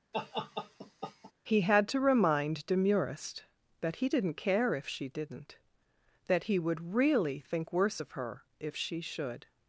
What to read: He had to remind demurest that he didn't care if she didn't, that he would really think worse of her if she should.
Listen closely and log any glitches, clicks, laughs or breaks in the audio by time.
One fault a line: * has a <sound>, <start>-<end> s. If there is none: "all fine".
* has a laugh, 0.1-1.3 s